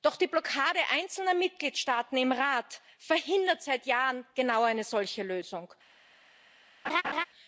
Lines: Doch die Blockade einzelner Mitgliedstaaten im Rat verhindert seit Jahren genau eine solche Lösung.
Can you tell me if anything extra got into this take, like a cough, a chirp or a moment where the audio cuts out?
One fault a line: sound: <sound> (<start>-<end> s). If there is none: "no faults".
sound: laugh (6.8-7.2 s)